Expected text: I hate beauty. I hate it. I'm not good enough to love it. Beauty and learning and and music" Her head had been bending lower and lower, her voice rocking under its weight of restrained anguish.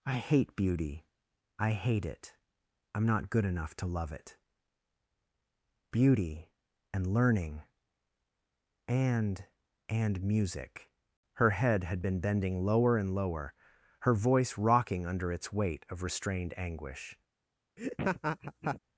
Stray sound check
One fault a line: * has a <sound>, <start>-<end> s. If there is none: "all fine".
* has a laugh, 17.8-18.8 s